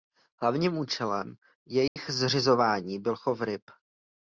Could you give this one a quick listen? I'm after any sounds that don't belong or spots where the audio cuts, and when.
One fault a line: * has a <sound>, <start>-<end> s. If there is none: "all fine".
* has a dropout, 1.9-2.0 s